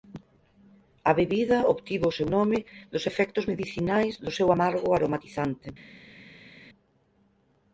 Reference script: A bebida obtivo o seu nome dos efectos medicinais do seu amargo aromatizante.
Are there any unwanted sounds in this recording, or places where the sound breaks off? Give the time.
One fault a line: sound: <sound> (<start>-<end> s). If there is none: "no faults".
no faults